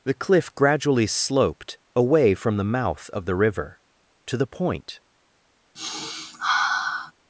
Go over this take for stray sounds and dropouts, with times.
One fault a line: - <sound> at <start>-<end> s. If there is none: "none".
- sniff at 5.8-7.1 s